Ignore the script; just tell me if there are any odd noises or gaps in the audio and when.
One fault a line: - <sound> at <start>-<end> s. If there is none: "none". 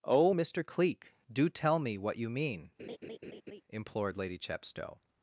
- laugh at 2.8-3.6 s